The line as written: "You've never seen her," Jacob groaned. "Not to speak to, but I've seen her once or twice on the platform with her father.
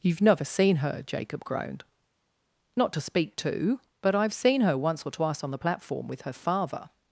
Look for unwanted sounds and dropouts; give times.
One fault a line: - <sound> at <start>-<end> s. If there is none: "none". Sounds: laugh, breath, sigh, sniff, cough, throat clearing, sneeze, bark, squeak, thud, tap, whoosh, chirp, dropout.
none